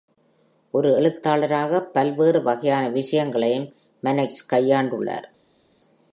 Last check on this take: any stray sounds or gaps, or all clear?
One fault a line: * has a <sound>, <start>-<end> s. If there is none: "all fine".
all fine